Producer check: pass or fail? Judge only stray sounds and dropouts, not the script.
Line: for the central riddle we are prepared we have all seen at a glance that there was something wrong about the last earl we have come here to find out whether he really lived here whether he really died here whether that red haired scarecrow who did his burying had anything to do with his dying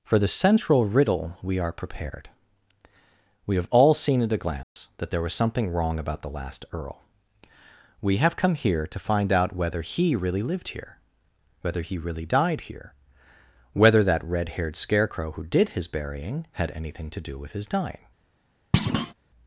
fail